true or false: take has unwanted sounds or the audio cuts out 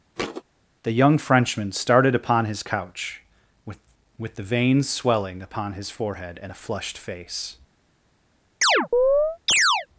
true